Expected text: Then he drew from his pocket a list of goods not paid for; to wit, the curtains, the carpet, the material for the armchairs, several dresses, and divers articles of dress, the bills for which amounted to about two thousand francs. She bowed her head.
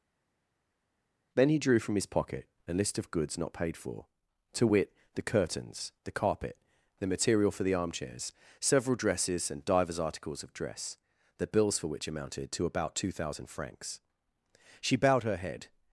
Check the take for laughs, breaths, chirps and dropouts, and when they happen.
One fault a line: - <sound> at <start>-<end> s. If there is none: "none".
none